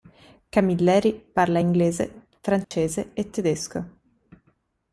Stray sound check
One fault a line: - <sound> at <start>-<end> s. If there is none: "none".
- dropout at 2.6-2.7 s